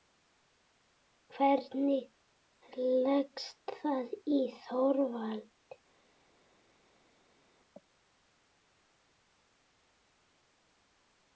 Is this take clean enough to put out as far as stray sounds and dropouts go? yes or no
yes